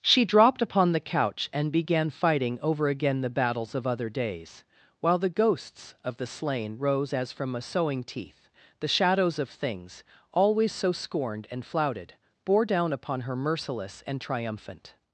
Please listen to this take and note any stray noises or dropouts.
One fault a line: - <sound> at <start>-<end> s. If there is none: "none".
none